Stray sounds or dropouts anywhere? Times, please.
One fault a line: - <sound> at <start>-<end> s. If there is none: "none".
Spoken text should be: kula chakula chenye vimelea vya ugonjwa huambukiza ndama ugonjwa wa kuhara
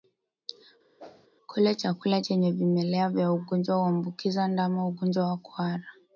- whoosh at 1.0-1.3 s